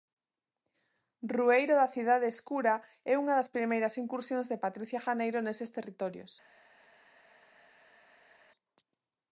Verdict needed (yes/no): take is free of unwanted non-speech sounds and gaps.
yes